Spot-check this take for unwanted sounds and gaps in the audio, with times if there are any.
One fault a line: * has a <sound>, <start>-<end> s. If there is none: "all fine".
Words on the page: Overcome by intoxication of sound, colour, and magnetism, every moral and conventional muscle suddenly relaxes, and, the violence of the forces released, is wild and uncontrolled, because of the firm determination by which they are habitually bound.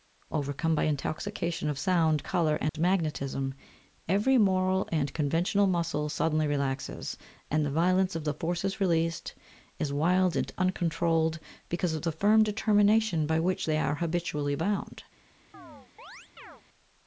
* has a dropout, 2.7-2.7 s
* has a chirp, 15.5-16.6 s